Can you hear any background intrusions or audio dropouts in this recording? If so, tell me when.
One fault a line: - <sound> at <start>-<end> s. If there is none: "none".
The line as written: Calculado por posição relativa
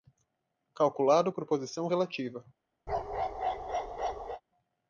- bark at 2.9-4.4 s